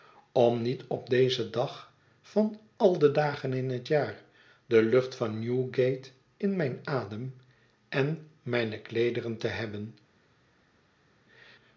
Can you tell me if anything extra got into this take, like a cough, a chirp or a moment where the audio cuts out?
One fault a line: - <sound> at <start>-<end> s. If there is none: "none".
none